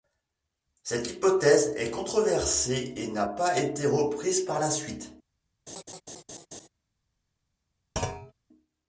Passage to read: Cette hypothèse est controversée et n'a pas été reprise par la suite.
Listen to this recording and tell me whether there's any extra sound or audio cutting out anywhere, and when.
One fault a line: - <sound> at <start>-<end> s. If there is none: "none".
- laugh at 5.7-6.7 s
- thud at 8.0-8.3 s